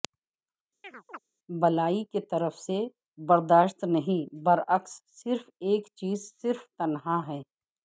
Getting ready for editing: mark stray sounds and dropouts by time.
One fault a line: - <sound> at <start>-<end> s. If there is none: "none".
- chirp at 0.8-1.2 s